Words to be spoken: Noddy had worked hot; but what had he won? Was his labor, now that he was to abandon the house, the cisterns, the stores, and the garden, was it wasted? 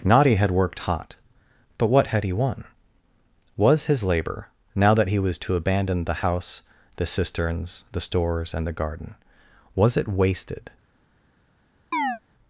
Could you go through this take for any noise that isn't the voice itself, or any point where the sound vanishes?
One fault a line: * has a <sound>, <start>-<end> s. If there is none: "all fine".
* has a chirp, 11.9-12.2 s